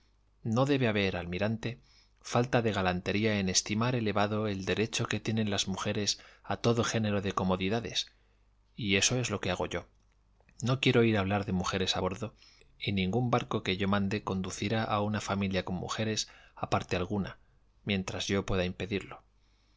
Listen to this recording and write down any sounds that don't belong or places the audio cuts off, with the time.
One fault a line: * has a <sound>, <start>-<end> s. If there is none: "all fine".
all fine